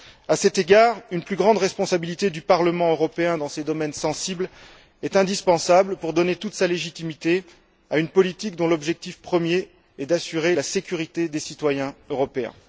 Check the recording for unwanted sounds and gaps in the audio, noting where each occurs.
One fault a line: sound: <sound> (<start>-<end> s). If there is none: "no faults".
no faults